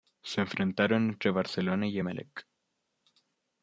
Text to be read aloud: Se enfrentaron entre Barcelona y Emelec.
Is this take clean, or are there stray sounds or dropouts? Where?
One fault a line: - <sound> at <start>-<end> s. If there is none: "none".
none